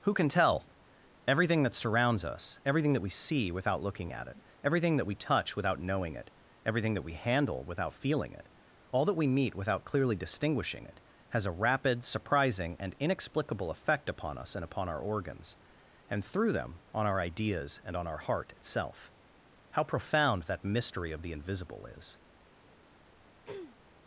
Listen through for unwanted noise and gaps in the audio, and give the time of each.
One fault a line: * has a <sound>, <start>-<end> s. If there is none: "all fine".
* has a throat clearing, 23.5-23.8 s